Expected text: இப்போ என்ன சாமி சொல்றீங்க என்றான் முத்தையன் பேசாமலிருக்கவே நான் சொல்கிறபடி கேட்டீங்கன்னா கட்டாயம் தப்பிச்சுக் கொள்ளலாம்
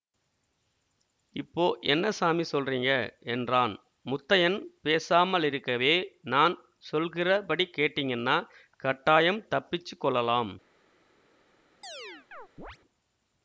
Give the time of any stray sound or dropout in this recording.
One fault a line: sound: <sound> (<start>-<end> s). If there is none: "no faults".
sound: chirp (11.8-12.8 s)